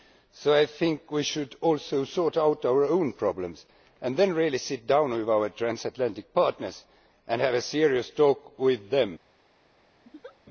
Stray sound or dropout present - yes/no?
yes